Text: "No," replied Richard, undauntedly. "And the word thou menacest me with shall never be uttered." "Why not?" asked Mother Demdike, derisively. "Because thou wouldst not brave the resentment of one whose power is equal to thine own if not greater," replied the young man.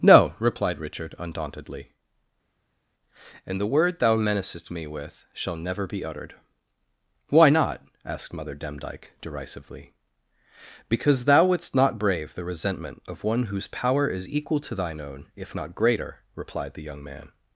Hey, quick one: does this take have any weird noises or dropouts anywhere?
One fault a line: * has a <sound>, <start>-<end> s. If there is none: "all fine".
all fine